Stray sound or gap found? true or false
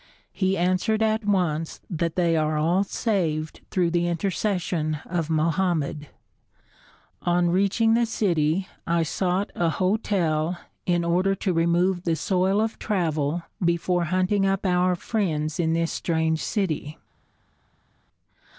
false